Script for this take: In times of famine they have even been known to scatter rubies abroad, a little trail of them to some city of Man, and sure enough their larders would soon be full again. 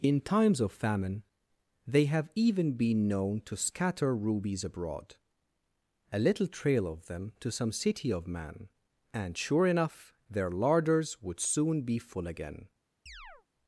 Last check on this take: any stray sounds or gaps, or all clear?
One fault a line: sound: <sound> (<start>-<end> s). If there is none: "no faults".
sound: chirp (13.1-13.5 s)